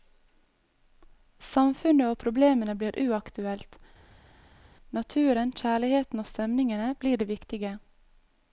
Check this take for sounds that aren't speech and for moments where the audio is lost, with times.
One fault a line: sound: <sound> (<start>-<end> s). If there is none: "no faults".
no faults